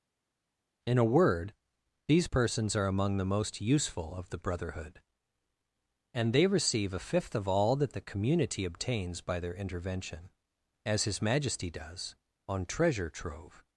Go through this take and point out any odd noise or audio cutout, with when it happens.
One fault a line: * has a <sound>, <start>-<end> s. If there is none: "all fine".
all fine